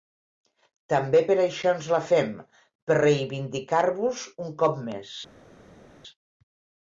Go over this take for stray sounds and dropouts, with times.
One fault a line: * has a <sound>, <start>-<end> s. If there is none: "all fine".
all fine